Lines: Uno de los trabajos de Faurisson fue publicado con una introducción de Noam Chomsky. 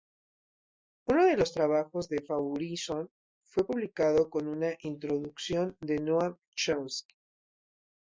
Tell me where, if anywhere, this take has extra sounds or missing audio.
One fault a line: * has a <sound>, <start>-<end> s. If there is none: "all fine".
all fine